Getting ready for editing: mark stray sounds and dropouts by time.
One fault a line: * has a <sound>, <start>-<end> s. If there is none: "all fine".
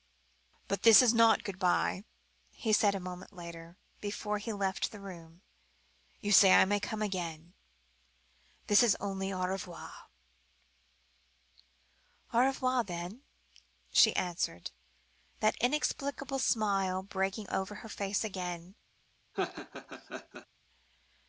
* has a laugh, 19.3-20.5 s